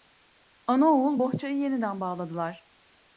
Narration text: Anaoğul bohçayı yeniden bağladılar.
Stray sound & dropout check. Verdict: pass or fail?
pass